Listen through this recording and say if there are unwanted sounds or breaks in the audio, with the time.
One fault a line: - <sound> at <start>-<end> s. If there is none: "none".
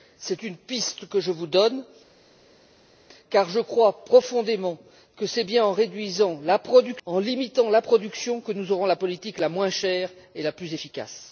none